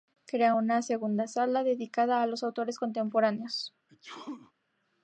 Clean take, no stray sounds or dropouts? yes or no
no